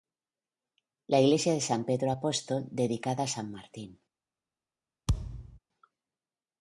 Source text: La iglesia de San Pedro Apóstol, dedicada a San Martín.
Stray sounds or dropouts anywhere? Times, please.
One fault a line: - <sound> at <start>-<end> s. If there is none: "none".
- thud at 5.1-5.6 s